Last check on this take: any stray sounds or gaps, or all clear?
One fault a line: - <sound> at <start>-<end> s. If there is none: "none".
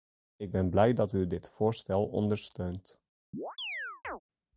- chirp at 3.3-4.2 s